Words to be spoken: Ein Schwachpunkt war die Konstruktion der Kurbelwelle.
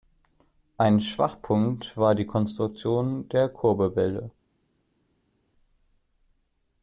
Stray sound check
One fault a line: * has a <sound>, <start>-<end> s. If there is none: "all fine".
all fine